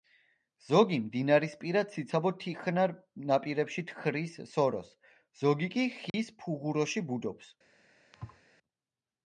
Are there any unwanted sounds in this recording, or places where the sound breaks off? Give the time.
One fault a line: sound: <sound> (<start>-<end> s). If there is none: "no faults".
sound: dropout (6.1-6.1 s)
sound: thud (8.1-8.4 s)